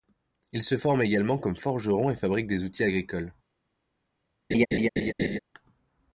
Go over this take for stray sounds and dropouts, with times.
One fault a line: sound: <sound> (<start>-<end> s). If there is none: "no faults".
sound: laugh (4.5-5.4 s)